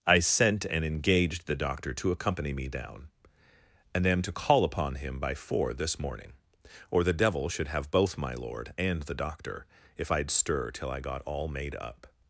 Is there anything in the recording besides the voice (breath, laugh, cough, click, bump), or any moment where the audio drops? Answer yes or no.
no